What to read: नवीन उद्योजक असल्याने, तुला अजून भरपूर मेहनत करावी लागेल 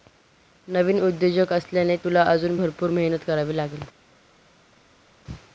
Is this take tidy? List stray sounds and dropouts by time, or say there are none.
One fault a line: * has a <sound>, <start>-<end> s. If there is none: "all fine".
all fine